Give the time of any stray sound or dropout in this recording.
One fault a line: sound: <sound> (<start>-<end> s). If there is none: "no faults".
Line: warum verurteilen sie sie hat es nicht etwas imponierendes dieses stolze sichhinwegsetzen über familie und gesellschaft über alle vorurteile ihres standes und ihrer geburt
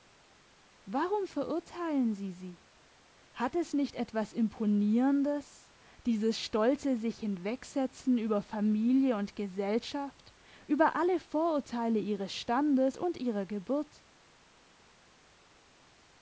no faults